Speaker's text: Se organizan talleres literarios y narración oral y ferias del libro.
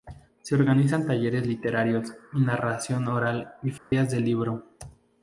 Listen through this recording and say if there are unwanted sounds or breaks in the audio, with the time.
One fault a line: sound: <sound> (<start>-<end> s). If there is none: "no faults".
sound: dropout (3.8-3.9 s)